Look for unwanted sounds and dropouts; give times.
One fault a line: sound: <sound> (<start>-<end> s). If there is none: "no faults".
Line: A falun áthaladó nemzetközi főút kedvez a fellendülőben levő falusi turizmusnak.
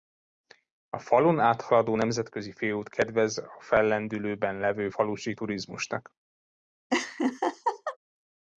sound: laugh (6.9-8.0 s)